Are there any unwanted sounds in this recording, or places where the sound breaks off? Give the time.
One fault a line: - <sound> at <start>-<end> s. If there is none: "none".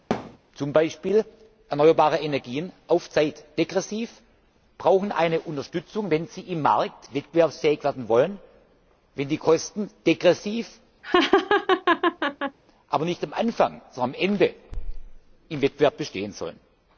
- thud at 0.1-0.4 s
- laugh at 11.0-12.6 s